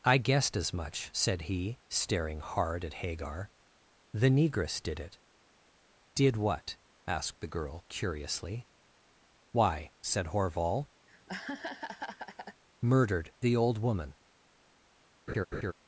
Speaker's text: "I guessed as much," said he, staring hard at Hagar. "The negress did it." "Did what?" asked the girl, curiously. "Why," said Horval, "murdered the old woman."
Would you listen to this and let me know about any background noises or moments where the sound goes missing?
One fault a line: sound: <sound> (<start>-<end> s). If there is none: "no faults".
sound: laugh (11.1-12.6 s)
sound: laugh (15.3-15.7 s)